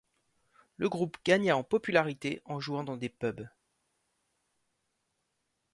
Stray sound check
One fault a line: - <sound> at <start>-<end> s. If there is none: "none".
none